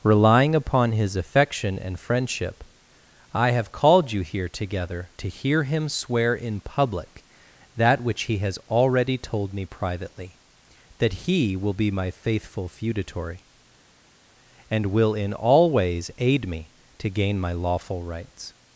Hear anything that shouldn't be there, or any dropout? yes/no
no